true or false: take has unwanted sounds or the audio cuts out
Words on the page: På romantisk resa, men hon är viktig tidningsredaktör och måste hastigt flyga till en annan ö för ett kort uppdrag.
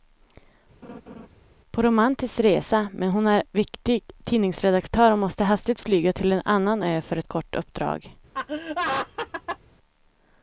true